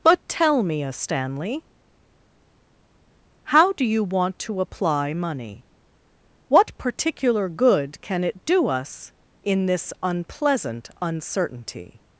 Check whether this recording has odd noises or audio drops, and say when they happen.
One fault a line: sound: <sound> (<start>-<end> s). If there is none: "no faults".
no faults